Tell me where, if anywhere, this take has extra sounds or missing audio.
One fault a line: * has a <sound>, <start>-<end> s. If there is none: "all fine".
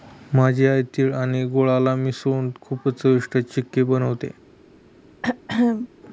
* has a throat clearing, 5.2-5.9 s